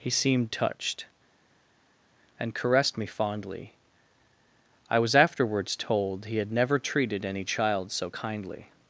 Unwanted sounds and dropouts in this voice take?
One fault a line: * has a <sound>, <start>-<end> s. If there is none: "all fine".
all fine